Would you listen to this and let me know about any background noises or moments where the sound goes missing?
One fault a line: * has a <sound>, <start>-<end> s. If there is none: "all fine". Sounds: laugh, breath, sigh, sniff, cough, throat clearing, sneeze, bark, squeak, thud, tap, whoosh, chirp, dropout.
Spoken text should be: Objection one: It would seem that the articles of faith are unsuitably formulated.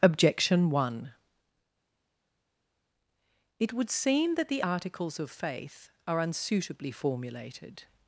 all fine